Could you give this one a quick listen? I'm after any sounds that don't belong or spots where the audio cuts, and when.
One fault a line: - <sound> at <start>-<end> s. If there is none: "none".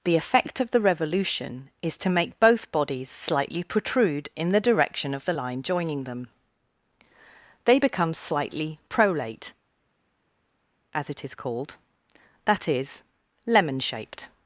none